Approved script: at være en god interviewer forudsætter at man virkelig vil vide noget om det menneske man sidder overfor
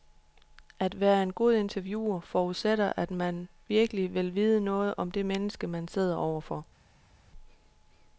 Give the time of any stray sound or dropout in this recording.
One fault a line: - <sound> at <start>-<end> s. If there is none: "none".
none